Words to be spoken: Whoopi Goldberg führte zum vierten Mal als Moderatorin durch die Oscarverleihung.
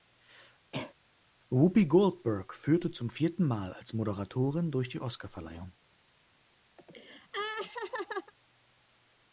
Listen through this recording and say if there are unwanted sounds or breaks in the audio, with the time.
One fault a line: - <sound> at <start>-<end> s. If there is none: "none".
- cough at 0.7-0.9 s
- laugh at 6.8-8.3 s